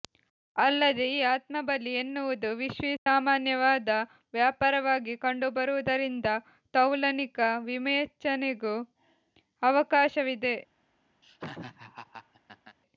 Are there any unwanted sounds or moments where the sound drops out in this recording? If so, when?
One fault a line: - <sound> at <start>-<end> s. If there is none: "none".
- dropout at 3.0-3.1 s
- laugh at 11.2-12.8 s